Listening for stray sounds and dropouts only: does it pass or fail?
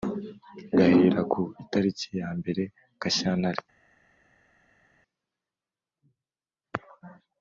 pass